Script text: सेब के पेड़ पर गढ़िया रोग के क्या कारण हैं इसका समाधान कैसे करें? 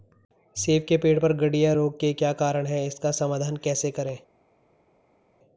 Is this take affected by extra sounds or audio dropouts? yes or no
no